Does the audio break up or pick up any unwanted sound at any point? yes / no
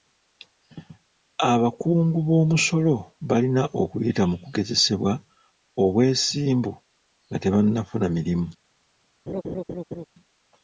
yes